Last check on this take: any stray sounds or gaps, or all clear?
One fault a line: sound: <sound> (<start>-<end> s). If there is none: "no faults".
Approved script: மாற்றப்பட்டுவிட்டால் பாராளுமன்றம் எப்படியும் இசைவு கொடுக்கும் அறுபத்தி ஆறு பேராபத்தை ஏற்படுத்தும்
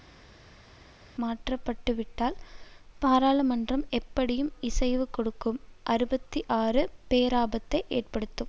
no faults